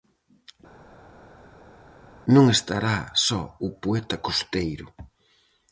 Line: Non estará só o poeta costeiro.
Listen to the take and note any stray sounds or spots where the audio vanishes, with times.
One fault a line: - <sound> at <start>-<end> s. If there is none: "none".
none